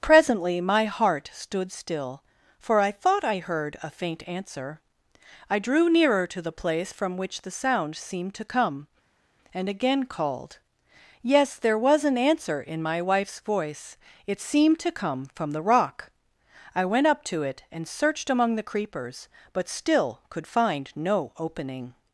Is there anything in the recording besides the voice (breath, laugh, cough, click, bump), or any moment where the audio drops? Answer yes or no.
no